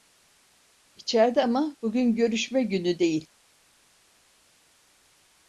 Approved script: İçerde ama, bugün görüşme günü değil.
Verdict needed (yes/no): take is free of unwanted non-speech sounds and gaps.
yes